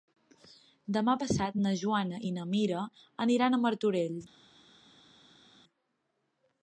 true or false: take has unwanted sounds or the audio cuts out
false